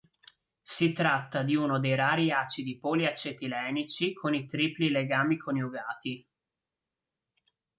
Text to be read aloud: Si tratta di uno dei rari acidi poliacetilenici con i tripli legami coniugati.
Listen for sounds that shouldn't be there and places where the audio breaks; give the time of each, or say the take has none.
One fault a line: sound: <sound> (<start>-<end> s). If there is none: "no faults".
no faults